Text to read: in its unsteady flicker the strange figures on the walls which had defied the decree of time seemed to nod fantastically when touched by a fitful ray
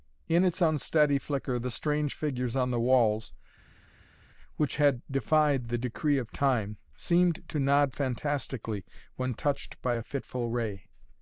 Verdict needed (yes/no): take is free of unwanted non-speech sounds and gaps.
yes